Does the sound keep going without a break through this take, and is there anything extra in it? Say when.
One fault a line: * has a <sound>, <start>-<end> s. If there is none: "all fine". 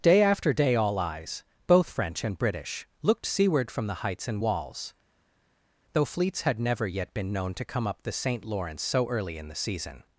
all fine